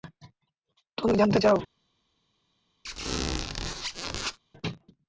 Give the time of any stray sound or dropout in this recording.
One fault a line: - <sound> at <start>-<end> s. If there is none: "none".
- squeak at 2.8-4.4 s